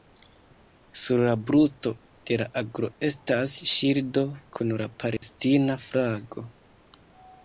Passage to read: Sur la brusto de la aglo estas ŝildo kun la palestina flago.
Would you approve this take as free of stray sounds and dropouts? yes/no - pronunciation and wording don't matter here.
no